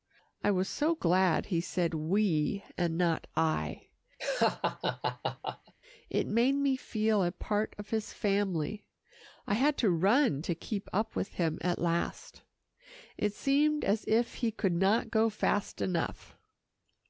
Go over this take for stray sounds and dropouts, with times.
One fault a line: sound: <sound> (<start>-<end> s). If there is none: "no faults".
sound: laugh (4.2-5.7 s)